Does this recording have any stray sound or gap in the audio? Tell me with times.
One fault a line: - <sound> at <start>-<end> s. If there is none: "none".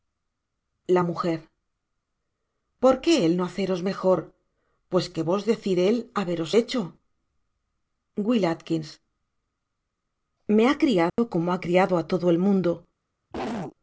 - dropout at 11.1-11.2 s
- cough at 13.3-13.8 s